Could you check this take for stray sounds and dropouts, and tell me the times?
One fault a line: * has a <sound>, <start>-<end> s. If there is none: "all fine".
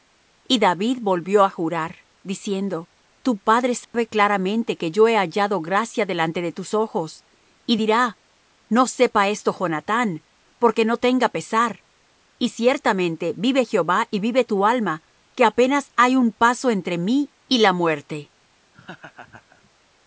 * has a dropout, 3.8-3.9 s
* has a laugh, 18.7-19.7 s